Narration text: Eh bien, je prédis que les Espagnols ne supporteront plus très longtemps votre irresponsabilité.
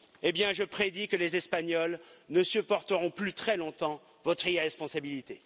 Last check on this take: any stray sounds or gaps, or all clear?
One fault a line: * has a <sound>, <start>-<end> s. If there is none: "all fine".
all fine